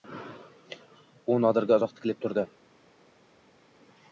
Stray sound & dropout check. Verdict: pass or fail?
pass